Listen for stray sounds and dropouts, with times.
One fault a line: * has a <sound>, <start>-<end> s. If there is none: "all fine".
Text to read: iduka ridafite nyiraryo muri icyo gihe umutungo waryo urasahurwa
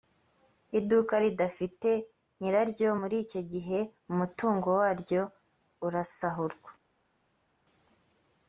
all fine